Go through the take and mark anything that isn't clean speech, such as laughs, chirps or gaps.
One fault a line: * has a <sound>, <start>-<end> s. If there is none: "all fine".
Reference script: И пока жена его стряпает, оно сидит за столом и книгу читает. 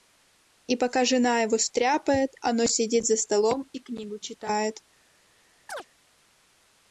* has a chirp, 5.7-5.9 s